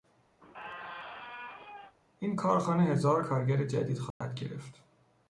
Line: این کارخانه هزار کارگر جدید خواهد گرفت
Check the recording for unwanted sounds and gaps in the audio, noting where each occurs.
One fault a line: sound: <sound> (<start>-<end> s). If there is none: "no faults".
sound: squeak (0.4-1.9 s)
sound: dropout (4.1-4.2 s)